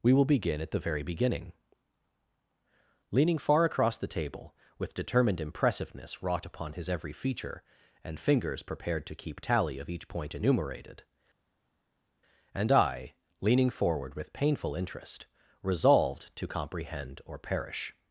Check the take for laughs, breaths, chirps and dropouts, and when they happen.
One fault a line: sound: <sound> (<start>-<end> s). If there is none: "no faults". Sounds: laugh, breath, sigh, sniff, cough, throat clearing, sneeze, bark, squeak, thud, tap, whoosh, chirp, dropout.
no faults